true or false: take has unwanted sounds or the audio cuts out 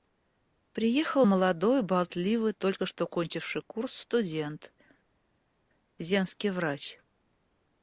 false